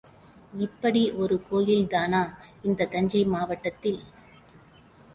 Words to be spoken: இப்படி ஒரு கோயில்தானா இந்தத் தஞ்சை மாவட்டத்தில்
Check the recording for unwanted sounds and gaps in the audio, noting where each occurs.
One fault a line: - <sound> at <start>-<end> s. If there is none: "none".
none